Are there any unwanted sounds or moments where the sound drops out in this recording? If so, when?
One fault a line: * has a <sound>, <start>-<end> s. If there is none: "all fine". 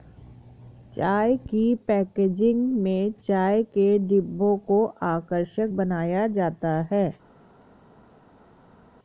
all fine